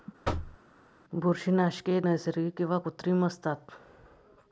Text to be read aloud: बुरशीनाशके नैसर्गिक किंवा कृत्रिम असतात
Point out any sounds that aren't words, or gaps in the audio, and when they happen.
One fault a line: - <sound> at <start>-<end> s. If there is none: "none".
- thud at 0.2-0.6 s